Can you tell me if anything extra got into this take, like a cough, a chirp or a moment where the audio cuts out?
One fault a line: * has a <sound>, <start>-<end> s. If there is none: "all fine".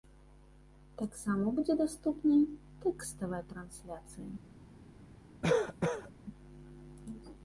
* has a cough, 5.4-6.1 s